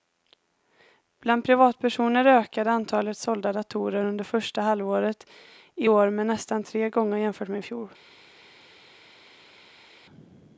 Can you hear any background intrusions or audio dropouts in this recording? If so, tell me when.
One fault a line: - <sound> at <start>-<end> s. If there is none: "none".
none